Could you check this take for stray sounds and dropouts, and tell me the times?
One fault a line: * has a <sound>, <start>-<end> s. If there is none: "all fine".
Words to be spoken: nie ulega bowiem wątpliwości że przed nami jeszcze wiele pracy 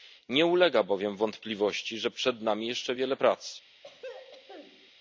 * has a throat clearing, 3.8-4.9 s